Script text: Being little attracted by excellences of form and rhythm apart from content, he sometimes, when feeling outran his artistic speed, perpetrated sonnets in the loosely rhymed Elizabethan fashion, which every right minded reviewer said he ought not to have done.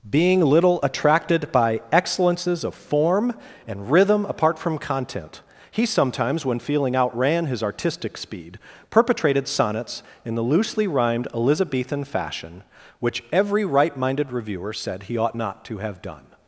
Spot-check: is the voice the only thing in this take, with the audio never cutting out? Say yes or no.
yes